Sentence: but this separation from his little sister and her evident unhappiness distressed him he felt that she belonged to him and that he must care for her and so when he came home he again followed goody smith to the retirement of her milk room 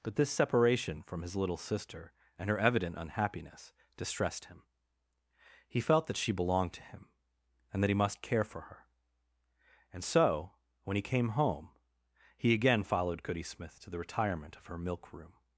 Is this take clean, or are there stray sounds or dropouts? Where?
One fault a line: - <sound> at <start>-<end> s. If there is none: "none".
none